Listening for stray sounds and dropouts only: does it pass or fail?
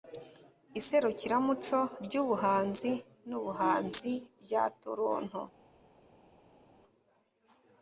pass